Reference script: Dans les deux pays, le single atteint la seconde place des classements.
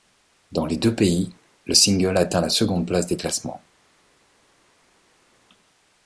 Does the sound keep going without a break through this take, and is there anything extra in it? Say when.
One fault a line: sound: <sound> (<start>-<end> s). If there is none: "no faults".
no faults